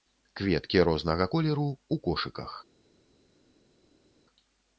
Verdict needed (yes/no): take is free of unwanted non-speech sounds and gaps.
yes